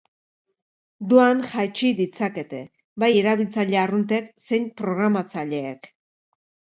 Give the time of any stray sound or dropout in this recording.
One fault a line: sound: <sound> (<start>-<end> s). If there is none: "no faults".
no faults